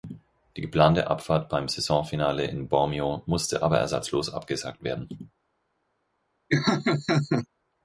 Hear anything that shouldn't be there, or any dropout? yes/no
yes